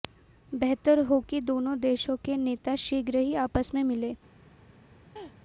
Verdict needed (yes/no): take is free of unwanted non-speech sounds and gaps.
no